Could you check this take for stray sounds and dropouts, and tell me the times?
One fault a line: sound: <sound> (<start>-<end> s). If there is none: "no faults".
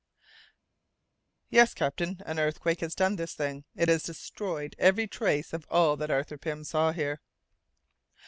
no faults